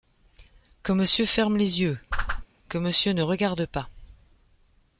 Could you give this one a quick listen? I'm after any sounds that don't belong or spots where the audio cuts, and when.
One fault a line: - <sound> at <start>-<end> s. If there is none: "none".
- whoosh at 2.1-2.5 s